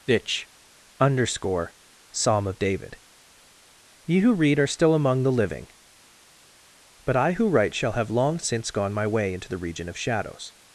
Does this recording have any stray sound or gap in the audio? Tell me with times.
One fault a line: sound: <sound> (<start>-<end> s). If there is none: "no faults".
no faults